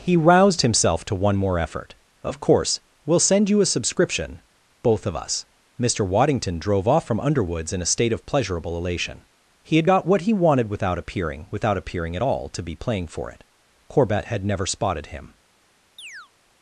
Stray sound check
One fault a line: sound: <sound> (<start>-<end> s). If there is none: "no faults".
sound: chirp (16.0-16.3 s)